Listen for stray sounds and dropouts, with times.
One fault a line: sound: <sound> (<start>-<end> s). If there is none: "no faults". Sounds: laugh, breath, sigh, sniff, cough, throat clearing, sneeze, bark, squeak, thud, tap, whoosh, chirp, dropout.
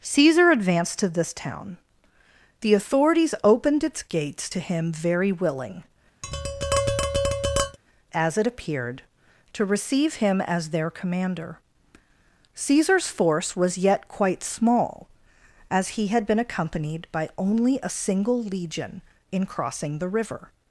sound: tap (6.2-7.8 s)